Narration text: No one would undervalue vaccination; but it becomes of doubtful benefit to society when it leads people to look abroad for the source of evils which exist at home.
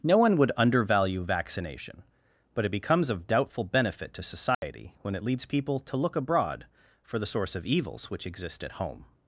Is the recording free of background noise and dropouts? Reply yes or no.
no